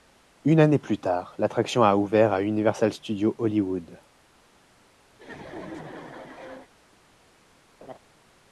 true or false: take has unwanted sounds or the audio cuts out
true